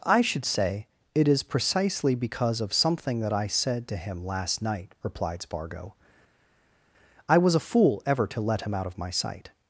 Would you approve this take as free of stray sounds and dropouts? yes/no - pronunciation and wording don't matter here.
yes